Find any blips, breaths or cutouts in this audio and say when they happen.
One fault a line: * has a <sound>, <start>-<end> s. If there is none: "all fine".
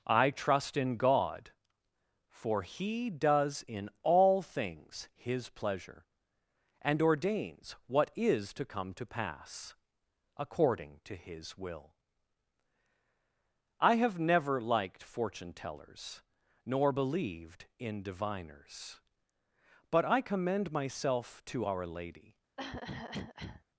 * has a cough, 22.6-23.6 s